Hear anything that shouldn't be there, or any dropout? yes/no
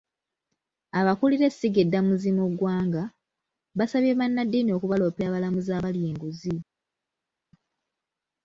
no